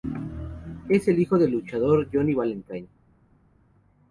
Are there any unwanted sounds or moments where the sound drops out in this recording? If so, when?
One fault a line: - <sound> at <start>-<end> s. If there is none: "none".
none